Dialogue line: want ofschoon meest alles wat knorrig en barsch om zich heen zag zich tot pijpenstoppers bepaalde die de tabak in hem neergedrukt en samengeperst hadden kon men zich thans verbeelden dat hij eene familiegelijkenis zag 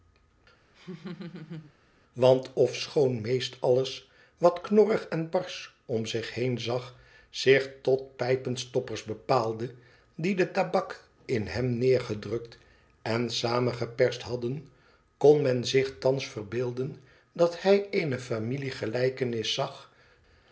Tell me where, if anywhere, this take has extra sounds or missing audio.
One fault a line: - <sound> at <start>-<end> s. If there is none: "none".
- laugh at 0.7-1.7 s